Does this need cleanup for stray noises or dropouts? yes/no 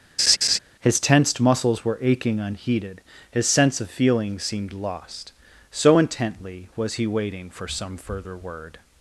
yes